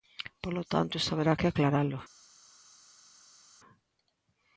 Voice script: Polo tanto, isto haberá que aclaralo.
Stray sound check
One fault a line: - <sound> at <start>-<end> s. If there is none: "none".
none